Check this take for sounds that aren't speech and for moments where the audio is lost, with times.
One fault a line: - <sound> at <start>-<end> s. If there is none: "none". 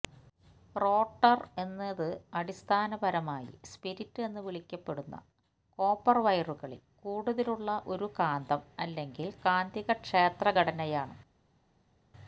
none